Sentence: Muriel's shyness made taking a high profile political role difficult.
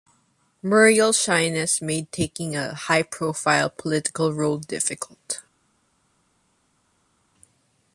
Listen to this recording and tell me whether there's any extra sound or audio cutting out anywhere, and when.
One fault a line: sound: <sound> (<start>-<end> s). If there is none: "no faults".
no faults